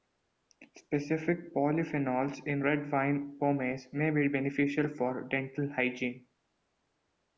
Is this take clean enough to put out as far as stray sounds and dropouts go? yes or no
yes